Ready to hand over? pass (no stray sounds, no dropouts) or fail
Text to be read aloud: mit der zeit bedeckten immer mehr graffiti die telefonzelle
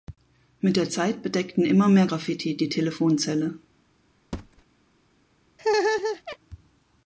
fail